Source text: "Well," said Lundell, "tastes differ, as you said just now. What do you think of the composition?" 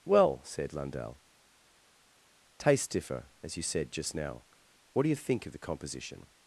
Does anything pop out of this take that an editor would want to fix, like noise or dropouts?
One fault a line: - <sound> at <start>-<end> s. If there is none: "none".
none